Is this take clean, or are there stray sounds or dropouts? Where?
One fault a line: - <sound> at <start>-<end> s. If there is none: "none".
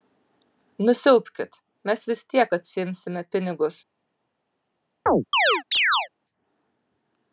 - chirp at 5.1-6.1 s